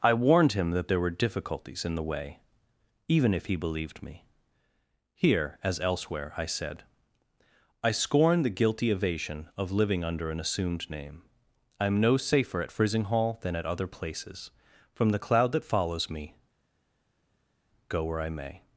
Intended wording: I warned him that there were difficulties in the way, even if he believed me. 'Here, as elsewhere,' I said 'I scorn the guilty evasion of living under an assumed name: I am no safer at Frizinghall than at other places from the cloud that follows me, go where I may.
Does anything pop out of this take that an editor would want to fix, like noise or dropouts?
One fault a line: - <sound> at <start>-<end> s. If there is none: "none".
none